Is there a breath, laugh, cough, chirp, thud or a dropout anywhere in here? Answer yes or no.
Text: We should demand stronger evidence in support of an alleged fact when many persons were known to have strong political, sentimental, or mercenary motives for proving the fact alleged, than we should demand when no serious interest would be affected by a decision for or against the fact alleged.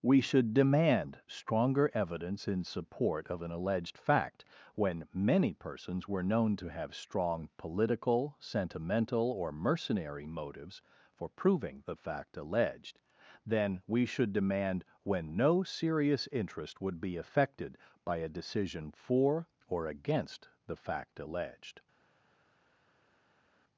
no